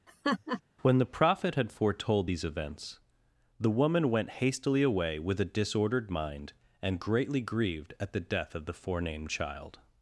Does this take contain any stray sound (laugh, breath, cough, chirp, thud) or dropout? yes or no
yes